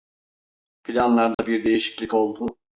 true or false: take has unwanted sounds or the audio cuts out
true